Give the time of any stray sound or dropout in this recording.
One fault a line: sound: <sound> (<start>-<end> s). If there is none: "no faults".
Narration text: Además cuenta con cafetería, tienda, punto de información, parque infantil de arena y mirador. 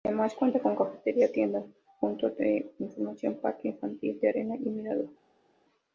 no faults